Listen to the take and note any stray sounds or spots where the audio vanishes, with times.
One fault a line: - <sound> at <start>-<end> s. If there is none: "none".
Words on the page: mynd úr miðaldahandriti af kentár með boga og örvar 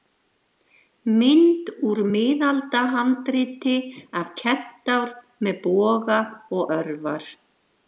none